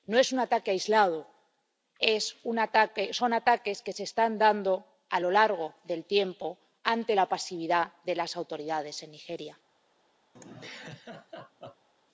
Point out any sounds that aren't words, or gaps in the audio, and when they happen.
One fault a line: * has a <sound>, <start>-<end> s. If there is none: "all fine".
* has a laugh, 10.4-11.9 s